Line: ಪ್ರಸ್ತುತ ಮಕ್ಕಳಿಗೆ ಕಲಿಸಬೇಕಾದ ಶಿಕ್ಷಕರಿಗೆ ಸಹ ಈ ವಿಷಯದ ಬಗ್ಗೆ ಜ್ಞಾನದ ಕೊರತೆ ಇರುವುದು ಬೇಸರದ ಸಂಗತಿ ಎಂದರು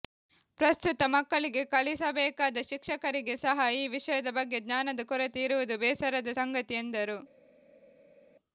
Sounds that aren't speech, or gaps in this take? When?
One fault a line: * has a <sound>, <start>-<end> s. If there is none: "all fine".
all fine